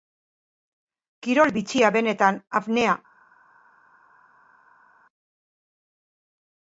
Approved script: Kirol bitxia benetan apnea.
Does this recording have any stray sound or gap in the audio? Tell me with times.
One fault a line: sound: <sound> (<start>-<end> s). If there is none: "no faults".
no faults